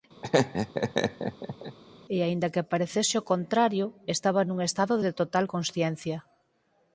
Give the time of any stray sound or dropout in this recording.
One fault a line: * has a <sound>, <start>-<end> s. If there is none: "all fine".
* has a laugh, 0.2-1.8 s